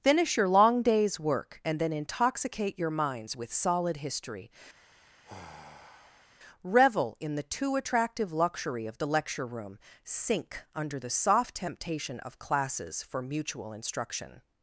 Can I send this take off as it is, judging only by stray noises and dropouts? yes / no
no